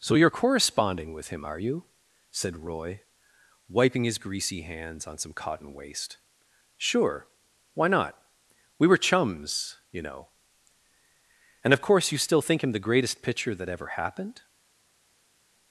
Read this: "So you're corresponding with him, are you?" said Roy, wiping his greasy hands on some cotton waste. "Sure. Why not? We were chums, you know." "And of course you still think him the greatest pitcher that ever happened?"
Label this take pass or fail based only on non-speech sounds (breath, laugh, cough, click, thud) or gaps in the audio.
pass